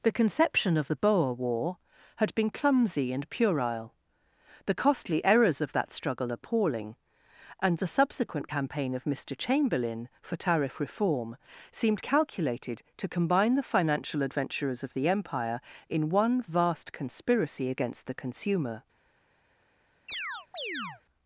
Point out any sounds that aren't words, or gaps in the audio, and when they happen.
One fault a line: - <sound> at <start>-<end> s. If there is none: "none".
- chirp at 20.1-21.0 s